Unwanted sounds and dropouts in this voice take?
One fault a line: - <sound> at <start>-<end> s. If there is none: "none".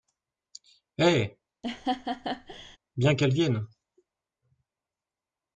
- laugh at 1.6-2.8 s